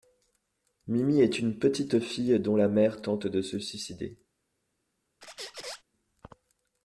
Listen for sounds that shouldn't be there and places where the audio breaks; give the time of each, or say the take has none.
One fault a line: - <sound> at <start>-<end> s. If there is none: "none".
- squeak at 5.2-5.8 s